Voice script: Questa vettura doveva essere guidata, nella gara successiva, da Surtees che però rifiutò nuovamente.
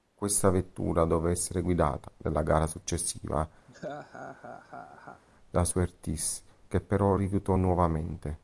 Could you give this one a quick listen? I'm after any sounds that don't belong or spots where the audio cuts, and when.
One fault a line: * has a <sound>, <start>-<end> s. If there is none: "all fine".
* has a laugh, 3.7-5.2 s